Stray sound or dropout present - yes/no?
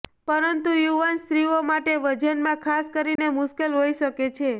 yes